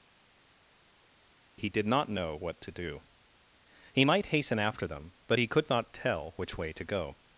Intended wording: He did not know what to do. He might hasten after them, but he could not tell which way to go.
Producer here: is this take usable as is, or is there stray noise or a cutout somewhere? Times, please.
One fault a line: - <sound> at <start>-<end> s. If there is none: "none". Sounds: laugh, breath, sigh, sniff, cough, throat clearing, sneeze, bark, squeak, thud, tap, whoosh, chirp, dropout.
none